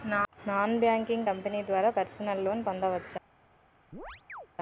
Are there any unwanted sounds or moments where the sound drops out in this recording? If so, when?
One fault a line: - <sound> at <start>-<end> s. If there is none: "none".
- chirp at 3.9-4.5 s